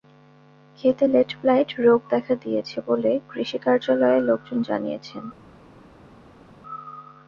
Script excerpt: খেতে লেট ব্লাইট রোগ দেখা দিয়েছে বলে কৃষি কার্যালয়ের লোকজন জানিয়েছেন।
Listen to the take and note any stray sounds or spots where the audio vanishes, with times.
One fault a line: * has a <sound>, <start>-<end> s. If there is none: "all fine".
all fine